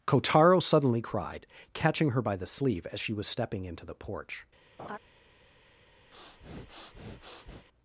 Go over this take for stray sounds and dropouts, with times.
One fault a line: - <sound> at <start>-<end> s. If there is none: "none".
- laugh at 4.8-5.0 s
- breath at 6.1-7.7 s